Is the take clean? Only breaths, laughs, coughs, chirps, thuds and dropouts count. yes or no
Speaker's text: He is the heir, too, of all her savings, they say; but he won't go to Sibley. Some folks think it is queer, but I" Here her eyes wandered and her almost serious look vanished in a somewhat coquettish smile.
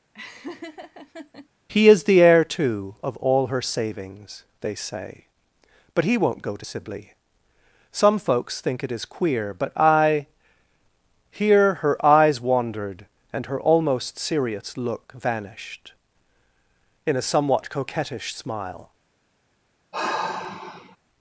no